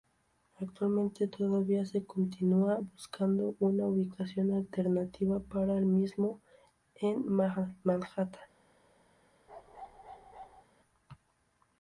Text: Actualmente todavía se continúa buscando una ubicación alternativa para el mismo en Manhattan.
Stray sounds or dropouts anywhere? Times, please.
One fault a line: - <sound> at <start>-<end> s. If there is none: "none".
- bark at 9.5-10.6 s